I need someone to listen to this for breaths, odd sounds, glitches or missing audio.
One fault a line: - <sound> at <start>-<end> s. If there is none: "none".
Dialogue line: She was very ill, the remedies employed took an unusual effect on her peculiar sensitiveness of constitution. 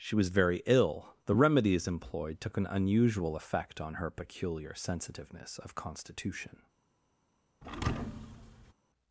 - thud at 7.6-8.7 s